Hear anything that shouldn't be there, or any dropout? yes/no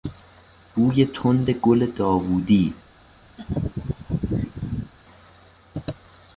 yes